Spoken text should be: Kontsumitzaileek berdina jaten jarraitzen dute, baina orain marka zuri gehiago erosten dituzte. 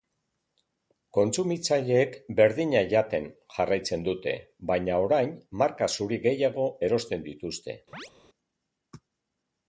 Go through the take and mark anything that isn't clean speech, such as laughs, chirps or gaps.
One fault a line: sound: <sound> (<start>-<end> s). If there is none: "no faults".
sound: chirp (7.9-8.1 s)